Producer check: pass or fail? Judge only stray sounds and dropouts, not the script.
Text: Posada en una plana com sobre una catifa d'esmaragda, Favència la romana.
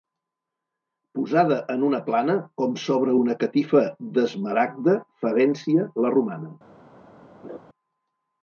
fail